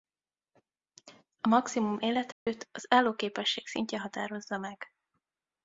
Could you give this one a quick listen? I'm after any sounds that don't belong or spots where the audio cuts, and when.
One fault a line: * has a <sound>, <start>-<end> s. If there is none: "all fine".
* has a dropout, 2.3-2.5 s